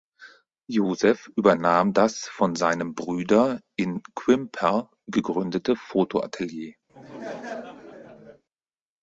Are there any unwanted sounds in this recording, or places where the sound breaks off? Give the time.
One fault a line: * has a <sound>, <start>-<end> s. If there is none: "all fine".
* has a laugh, 6.9-8.4 s